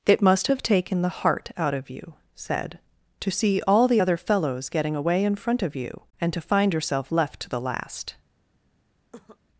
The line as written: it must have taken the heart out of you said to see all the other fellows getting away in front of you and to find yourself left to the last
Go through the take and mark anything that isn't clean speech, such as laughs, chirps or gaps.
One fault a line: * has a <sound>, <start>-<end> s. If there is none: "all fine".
* has a cough, 9.1-9.4 s